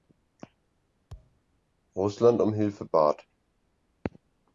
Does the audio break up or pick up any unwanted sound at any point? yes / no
yes